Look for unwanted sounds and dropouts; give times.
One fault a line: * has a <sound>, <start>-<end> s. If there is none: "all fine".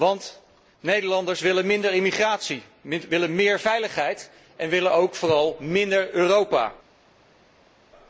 all fine